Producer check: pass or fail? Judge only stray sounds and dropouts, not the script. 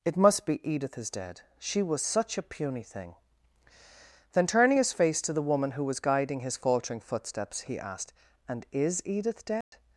fail